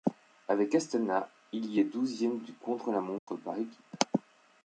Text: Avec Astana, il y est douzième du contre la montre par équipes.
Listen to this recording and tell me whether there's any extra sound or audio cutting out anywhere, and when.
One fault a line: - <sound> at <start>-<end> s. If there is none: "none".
- dropout at 3.2-3.3 s